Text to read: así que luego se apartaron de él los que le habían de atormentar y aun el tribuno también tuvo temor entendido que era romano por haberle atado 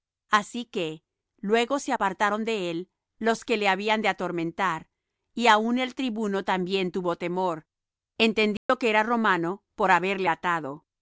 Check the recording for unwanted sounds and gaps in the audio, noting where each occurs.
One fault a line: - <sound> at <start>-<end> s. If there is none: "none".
- dropout at 8.6-8.7 s